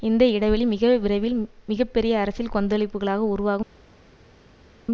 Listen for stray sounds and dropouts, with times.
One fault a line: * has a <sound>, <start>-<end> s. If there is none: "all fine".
all fine